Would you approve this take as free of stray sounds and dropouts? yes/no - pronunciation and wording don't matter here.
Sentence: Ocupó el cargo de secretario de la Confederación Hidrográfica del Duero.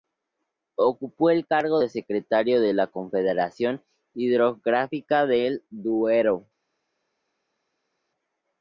yes